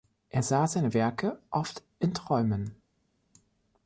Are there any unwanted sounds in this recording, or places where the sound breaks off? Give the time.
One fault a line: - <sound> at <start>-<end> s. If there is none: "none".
none